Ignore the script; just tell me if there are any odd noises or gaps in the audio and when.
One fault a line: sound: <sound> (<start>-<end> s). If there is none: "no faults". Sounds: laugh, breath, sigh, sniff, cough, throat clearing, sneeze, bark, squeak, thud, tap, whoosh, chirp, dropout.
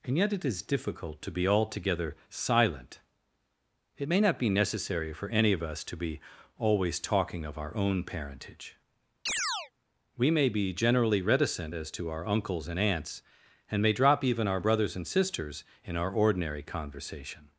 sound: chirp (9.3-9.7 s)